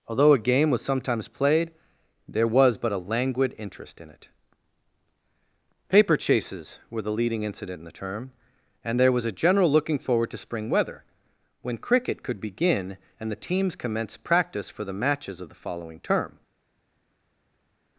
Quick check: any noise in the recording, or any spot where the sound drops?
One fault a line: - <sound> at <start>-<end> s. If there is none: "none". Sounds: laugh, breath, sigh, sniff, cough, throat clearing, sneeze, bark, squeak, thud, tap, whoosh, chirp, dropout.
none